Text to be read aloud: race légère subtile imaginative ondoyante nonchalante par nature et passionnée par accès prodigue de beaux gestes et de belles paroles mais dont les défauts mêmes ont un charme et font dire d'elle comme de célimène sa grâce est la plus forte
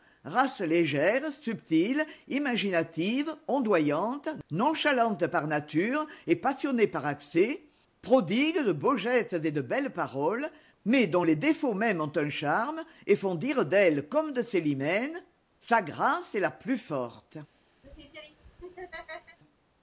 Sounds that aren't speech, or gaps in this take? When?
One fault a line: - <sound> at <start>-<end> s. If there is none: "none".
- laugh at 17.8-19.4 s